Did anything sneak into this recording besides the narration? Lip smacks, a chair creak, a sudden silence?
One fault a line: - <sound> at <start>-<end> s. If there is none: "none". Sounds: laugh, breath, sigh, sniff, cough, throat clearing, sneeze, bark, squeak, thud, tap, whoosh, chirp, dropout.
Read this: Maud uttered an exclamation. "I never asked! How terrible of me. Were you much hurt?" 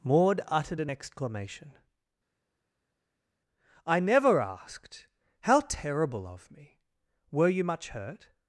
none